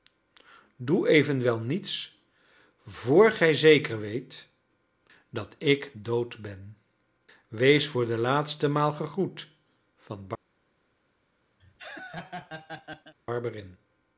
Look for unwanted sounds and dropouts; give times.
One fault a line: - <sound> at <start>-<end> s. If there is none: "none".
- laugh at 11.6-13.1 s